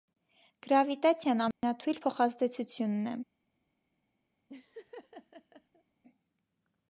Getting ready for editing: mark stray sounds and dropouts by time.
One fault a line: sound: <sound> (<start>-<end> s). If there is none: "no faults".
sound: dropout (1.5-1.6 s)
sound: laugh (4.5-5.8 s)